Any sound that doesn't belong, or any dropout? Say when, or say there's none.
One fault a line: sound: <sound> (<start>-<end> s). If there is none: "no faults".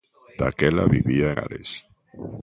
no faults